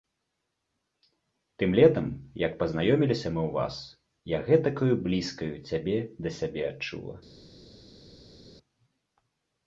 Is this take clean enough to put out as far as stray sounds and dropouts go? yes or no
yes